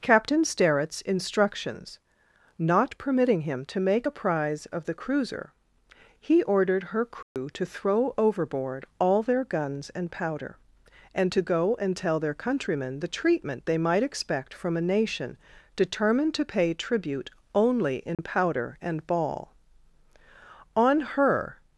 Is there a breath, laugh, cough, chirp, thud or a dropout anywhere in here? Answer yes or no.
yes